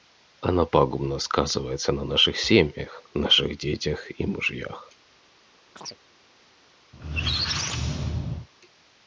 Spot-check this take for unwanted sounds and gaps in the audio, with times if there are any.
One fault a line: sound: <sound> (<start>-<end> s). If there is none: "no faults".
sound: chirp (5.8-6.0 s)
sound: squeak (6.9-8.5 s)